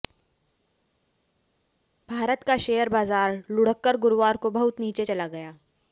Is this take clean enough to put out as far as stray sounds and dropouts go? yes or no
yes